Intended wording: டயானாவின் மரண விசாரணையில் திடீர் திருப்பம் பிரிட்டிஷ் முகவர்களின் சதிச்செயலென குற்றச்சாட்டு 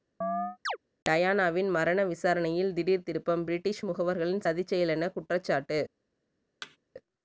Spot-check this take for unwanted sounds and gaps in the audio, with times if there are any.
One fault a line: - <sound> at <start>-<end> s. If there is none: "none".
- chirp at 0.2-0.8 s
- thud at 6.6-6.8 s